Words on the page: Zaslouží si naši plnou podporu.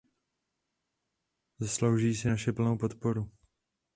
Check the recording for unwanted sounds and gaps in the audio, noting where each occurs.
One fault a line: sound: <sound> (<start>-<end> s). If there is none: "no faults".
no faults